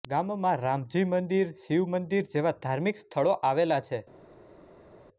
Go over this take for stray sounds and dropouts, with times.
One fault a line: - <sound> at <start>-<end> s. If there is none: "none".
none